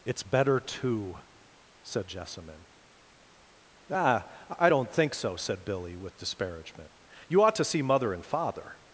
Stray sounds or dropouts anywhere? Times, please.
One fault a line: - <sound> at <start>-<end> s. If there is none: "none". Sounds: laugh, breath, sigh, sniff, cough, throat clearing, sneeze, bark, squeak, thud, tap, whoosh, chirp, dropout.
none